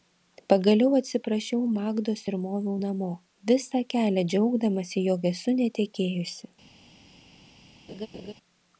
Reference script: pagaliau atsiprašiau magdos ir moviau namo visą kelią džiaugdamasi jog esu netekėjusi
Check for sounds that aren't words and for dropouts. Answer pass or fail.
fail